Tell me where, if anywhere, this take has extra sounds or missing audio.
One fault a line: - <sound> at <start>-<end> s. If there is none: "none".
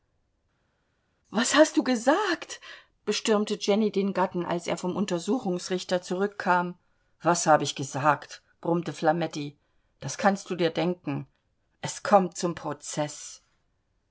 none